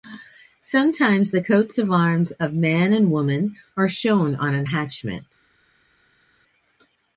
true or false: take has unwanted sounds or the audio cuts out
false